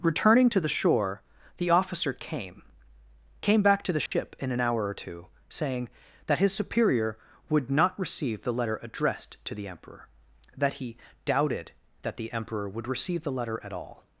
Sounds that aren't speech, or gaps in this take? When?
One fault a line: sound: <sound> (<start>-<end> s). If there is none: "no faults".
sound: dropout (4.1-4.1 s)